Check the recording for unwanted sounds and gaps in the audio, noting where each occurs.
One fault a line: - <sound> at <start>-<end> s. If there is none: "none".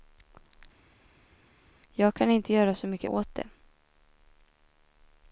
none